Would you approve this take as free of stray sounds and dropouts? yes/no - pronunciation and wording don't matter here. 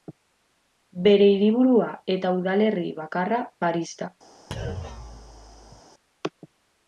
no